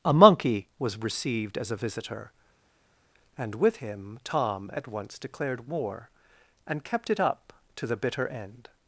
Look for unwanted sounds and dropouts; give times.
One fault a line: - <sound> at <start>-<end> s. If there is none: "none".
none